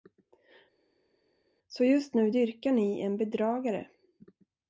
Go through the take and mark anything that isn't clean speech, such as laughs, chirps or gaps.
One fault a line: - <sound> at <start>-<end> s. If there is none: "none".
none